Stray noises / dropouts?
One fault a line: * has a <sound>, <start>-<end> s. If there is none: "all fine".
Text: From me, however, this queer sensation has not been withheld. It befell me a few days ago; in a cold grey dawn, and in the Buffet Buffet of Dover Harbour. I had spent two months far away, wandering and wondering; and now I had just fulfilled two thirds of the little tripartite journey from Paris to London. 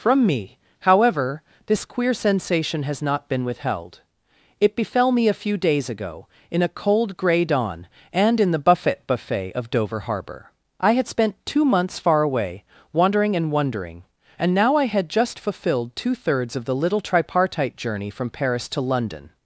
all fine